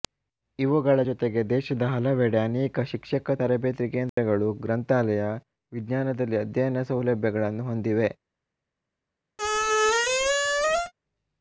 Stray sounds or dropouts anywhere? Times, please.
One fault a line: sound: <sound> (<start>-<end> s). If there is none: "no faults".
sound: dropout (4.1-4.2 s)
sound: squeak (9.4-10.9 s)